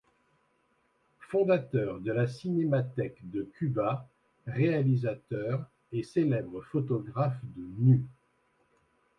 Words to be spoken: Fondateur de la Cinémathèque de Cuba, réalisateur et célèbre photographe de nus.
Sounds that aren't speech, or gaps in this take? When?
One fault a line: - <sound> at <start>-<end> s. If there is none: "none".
none